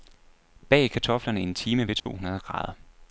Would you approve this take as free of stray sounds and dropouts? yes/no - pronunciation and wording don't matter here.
no